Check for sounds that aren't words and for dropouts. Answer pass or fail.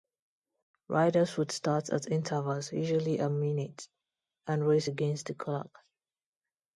pass